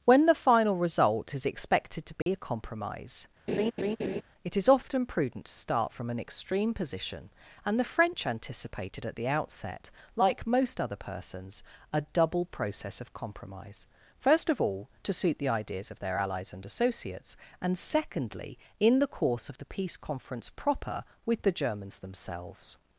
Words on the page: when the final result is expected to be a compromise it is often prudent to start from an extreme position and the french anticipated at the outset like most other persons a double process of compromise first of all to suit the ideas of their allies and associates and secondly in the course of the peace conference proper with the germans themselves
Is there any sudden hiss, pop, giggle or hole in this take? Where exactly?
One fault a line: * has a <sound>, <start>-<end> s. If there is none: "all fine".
* has a dropout, 2.2-2.3 s
* has a laugh, 3.5-4.2 s